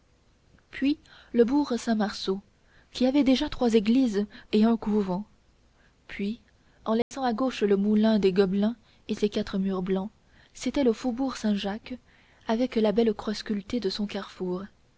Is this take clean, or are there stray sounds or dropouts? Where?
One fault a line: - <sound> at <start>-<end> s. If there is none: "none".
- dropout at 7.0-7.1 s